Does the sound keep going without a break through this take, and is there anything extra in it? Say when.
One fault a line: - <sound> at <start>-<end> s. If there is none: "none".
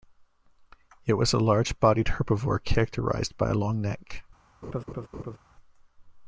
- laugh at 4.6-5.4 s